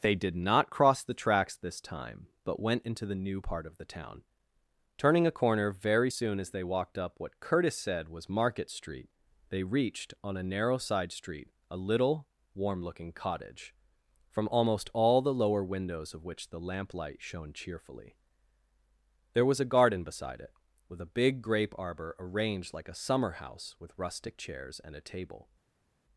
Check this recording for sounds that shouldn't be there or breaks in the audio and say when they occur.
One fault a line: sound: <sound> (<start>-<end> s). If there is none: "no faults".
no faults